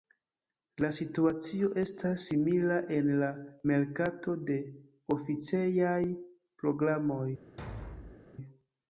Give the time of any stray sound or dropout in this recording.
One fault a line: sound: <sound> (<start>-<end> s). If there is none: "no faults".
sound: thud (7.6-8.2 s)